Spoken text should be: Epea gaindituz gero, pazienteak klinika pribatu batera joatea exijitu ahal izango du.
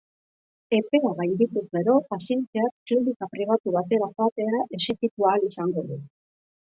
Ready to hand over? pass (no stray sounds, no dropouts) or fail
pass